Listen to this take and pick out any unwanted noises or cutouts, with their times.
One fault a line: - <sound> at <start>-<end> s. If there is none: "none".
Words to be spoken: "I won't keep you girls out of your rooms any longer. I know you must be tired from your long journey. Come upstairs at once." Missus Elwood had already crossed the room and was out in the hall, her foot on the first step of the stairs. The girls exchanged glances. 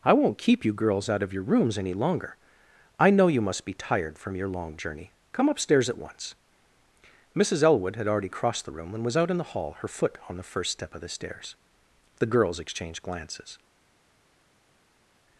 none